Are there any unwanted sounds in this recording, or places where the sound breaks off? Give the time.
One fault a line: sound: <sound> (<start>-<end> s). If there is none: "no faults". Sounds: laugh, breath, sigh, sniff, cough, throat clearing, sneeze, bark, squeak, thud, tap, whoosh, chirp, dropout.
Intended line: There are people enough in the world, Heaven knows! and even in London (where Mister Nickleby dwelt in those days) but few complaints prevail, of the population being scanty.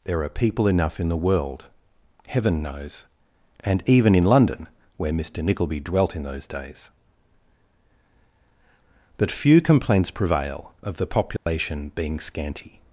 sound: dropout (11.4-11.5 s)